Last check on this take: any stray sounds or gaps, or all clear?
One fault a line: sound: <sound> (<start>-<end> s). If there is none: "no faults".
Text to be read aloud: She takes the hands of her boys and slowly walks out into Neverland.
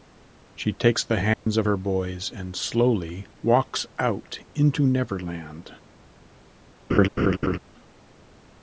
sound: dropout (1.3-1.5 s)
sound: laugh (6.9-7.6 s)